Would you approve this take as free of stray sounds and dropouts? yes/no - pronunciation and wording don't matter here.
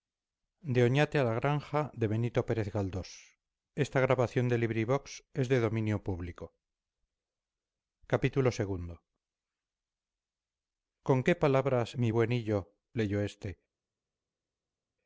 yes